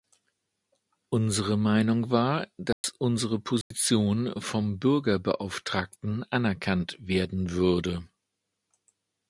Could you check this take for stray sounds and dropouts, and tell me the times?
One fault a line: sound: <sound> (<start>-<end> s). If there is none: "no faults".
sound: dropout (2.7-2.8 s)
sound: dropout (3.6-3.7 s)